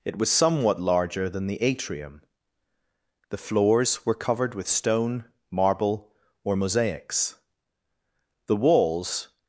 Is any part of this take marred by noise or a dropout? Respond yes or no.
no